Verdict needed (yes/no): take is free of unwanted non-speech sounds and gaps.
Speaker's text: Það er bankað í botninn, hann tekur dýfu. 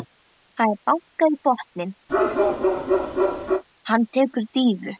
no